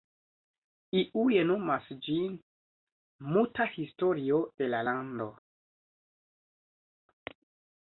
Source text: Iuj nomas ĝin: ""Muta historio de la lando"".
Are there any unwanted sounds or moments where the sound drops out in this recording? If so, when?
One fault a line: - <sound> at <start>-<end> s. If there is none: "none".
none